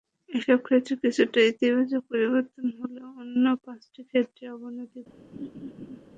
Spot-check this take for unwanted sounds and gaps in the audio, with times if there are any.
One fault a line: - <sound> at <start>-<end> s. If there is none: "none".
- laugh at 5.3-6.0 s